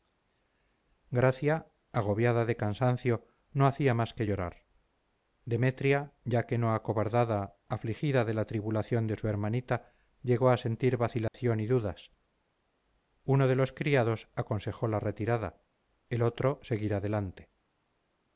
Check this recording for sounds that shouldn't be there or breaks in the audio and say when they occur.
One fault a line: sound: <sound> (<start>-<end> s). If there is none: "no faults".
sound: dropout (11.3-11.3 s)